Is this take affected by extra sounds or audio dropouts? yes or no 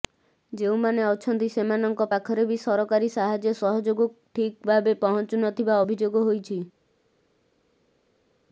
no